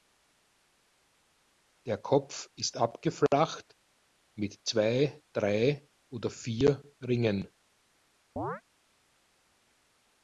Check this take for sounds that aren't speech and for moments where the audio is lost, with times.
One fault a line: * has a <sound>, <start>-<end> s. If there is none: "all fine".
* has a chirp, 8.4-8.6 s